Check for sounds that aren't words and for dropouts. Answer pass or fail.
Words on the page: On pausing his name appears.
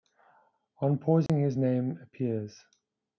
fail